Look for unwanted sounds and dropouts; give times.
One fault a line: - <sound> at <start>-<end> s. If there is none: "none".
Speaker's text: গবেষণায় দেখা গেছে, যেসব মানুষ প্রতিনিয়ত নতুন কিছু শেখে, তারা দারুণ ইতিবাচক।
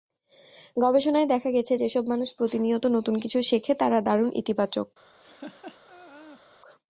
- laugh at 5.2-6.4 s